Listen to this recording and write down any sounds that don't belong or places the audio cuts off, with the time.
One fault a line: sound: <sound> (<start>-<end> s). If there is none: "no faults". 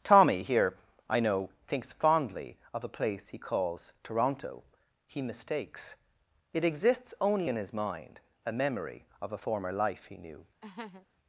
sound: laugh (10.6-11.1 s)